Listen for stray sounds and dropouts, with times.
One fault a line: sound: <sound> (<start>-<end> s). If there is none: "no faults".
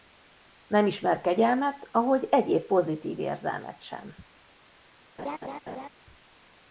sound: laugh (5.2-5.9 s)